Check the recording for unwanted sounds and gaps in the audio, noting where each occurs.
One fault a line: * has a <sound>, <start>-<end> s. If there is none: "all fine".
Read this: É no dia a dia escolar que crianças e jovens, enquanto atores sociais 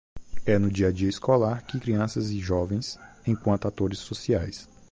all fine